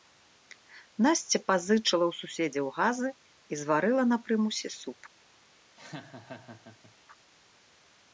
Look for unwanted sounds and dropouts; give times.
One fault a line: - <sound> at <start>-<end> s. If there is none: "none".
- laugh at 5.8-7.0 s